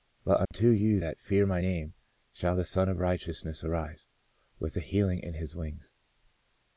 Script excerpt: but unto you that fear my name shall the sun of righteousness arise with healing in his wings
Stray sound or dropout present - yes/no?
yes